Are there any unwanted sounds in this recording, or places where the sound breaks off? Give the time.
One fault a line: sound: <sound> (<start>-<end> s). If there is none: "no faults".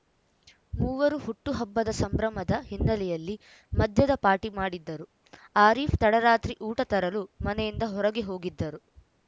no faults